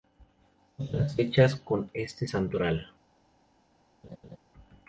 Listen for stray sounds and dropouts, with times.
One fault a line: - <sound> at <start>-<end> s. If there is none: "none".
- laugh at 4.0-4.4 s